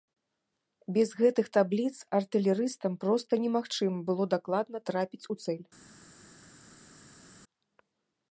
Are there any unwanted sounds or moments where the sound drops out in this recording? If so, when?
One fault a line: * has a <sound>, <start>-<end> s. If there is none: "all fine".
all fine